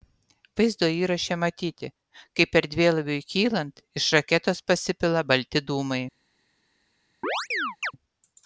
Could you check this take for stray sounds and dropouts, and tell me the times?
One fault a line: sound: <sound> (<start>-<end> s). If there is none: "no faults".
sound: chirp (7.2-7.9 s)